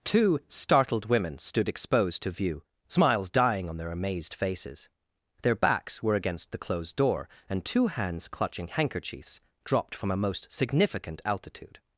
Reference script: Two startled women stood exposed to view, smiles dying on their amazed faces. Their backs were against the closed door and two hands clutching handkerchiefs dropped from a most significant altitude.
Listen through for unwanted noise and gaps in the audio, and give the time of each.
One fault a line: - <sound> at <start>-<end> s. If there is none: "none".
none